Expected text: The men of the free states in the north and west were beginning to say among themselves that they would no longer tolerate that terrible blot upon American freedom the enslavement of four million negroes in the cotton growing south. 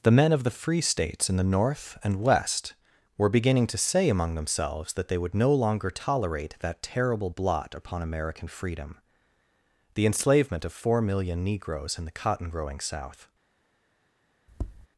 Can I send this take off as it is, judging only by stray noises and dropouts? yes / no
no